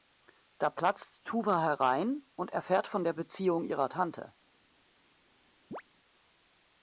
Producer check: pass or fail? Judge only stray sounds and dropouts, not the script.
fail